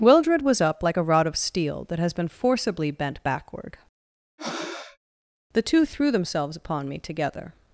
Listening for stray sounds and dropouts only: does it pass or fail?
fail